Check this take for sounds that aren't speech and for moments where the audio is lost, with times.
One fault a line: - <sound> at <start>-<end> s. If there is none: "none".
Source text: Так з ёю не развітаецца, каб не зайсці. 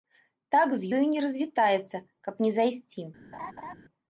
- laugh at 3.3-3.8 s